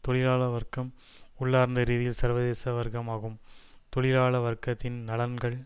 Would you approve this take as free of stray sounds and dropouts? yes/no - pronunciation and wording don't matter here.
yes